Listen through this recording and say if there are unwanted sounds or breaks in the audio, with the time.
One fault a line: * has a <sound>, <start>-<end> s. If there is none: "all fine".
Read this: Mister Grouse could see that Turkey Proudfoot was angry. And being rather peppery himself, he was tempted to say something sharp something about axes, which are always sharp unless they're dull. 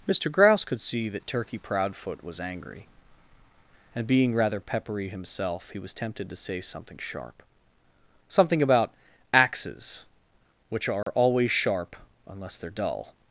* has a dropout, 11.0-11.1 s